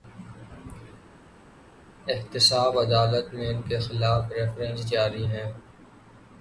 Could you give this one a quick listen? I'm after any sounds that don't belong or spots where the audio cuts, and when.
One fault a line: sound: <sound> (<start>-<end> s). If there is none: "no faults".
no faults